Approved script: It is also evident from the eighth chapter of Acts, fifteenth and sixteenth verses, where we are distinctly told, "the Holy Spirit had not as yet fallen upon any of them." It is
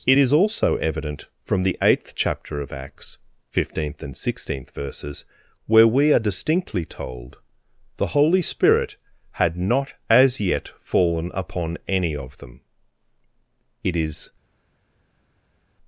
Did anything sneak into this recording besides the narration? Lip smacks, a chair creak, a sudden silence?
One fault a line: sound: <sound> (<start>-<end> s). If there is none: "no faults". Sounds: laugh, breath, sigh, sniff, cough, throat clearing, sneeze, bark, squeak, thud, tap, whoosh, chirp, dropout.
no faults